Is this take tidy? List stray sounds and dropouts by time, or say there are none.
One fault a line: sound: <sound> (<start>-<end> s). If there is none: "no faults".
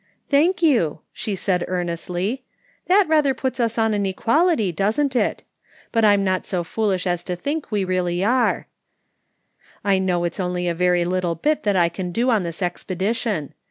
no faults